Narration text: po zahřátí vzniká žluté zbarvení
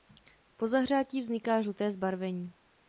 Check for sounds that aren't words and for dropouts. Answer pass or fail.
pass